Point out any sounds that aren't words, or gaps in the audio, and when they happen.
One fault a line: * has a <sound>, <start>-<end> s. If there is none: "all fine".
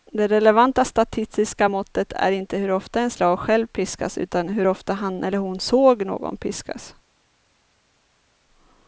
all fine